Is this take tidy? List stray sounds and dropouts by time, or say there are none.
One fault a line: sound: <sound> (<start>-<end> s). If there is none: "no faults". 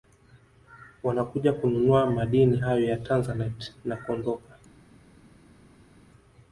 no faults